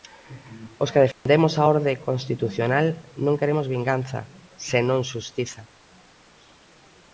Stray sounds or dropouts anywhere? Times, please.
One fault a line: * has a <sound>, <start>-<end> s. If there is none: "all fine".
* has a dropout, 1.1-1.3 s